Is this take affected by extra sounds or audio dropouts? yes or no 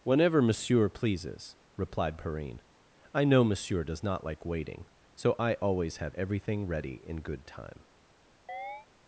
yes